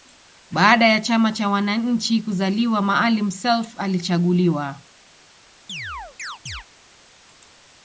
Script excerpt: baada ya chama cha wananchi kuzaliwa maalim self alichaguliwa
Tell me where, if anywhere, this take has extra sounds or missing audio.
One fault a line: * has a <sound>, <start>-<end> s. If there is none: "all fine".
* has a chirp, 5.7-6.7 s